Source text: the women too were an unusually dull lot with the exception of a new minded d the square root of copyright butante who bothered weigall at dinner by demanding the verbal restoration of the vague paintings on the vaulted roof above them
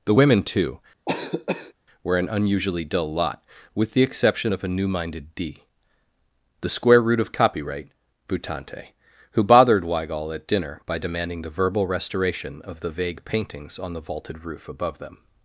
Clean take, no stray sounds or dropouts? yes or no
no